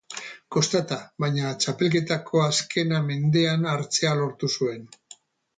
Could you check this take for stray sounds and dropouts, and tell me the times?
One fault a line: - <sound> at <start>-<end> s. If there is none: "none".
none